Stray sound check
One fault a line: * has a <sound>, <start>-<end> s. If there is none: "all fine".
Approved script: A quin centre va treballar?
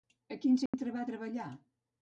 * has a dropout, 0.7-0.7 s